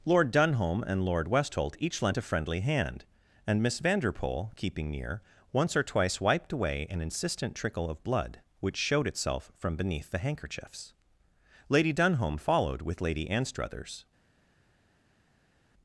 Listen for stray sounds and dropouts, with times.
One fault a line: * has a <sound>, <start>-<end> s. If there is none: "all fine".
all fine